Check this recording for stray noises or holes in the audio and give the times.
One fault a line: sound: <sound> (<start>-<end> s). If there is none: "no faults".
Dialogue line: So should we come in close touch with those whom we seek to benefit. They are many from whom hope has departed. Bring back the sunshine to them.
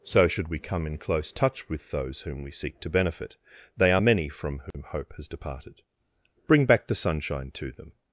sound: dropout (4.7-4.7 s)